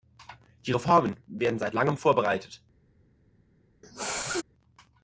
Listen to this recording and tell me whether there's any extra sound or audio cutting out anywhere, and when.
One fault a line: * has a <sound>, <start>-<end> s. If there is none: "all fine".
* has a sneeze, 3.8-4.4 s